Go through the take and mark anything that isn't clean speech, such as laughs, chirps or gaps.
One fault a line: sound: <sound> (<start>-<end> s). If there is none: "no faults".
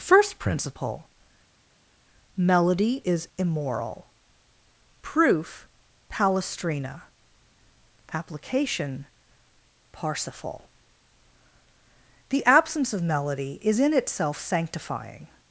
no faults